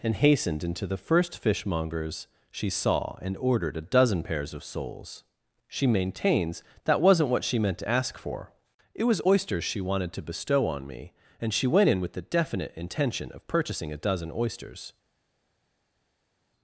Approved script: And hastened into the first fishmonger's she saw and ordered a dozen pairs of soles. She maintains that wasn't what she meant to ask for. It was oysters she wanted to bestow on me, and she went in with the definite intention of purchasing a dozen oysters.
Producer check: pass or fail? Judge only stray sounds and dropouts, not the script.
pass